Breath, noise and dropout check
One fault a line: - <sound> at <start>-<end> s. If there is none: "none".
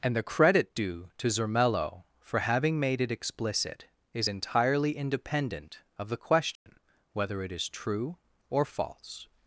- dropout at 6.6-6.7 s